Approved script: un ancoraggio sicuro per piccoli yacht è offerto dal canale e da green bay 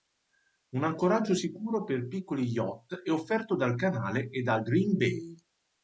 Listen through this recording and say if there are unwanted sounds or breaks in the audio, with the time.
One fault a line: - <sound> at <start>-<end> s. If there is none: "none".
none